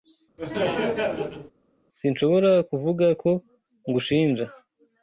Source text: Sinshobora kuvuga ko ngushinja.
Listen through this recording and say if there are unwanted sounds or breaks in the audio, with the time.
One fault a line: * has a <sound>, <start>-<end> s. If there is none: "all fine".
* has a laugh, 0.4-1.5 s